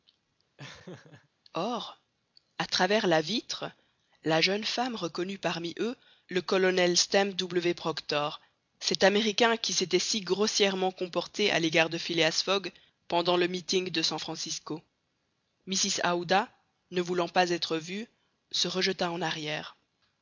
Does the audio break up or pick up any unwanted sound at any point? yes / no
yes